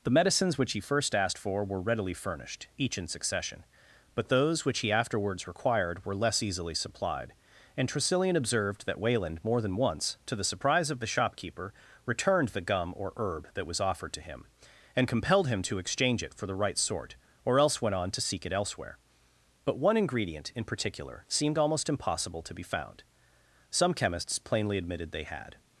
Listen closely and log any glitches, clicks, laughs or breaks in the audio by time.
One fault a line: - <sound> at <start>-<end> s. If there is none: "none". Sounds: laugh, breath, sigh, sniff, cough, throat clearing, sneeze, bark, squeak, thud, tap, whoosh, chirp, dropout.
none